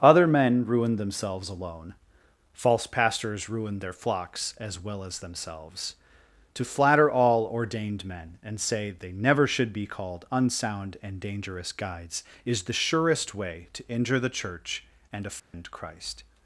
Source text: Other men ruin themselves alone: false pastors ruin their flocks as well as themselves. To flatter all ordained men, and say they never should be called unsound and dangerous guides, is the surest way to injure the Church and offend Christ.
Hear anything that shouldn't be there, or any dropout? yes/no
yes